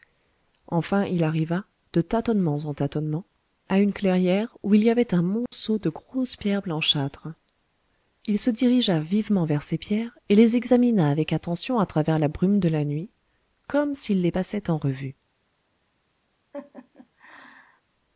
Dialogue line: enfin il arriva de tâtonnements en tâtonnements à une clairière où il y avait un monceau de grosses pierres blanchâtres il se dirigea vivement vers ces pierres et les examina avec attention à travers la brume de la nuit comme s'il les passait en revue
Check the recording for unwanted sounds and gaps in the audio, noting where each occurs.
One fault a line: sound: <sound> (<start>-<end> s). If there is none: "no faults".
sound: dropout (5.5-5.5 s)
sound: laugh (16.5-17.8 s)